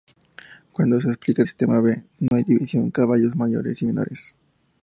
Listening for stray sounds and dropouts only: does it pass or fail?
fail